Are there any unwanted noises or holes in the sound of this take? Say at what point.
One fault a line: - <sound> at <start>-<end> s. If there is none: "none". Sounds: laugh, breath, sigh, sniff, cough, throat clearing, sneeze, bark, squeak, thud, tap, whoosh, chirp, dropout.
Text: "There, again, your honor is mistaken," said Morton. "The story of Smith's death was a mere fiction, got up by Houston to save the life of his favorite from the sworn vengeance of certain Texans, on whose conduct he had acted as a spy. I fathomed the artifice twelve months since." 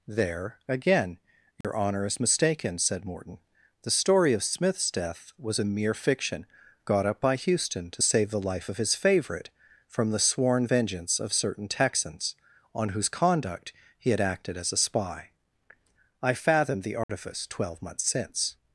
- dropout at 1.6-1.6 s
- dropout at 17.0-17.1 s